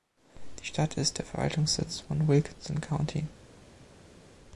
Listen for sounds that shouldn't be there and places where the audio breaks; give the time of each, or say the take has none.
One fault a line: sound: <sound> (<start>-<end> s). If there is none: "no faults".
no faults